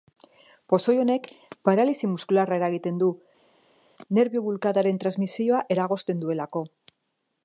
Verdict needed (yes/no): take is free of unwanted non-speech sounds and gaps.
yes